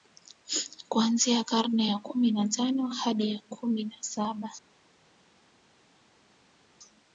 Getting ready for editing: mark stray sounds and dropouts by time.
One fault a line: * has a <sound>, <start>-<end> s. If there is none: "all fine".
all fine